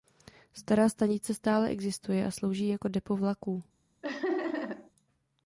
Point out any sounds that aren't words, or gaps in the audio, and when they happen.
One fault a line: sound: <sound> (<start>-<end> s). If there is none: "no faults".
sound: laugh (4.0-4.9 s)